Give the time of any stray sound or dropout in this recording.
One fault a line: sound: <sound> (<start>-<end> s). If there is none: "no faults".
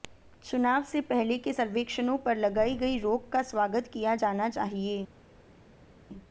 no faults